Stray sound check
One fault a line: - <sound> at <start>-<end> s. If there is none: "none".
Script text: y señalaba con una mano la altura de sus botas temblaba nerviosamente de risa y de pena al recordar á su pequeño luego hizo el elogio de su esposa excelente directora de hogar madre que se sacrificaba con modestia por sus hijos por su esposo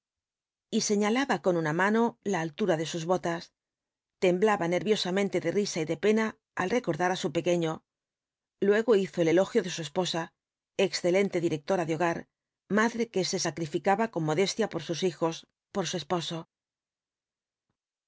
none